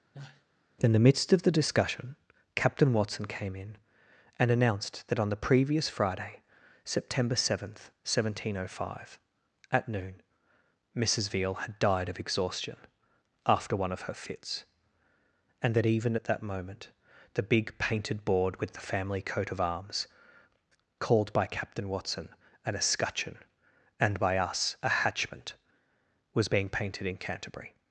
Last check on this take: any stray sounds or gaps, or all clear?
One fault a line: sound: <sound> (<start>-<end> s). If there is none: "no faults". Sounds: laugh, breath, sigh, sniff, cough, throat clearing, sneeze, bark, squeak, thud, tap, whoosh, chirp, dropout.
sound: sneeze (0.1-0.4 s)